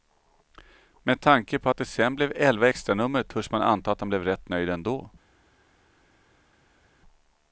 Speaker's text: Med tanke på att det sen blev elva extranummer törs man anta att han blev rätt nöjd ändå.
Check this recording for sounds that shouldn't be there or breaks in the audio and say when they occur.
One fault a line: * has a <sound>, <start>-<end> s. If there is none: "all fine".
all fine